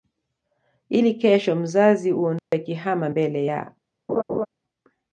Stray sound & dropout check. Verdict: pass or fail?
fail